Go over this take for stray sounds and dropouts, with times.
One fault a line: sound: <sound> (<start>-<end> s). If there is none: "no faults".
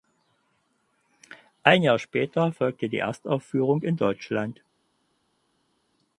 no faults